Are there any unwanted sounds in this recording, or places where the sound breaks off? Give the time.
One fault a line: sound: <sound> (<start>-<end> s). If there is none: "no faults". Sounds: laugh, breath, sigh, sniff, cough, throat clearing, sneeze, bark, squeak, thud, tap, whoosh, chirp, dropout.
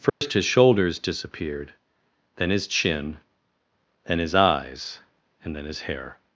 sound: dropout (0.1-0.2 s)